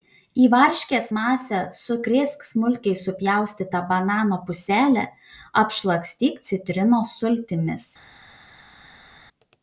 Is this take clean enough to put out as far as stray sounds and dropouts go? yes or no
yes